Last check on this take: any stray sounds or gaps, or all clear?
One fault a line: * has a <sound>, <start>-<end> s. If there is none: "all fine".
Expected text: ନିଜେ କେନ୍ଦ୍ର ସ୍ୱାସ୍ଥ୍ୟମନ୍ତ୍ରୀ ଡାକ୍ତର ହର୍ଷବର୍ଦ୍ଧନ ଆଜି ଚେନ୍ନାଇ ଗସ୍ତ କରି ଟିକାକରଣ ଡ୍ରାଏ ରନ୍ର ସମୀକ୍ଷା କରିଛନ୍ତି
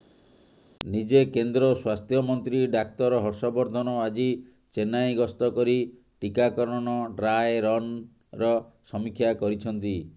all fine